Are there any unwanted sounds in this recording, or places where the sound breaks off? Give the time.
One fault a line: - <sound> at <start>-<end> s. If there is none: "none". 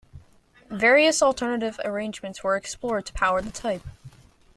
none